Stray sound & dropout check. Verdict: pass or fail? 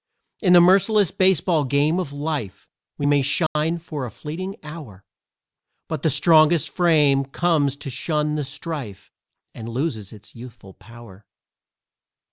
fail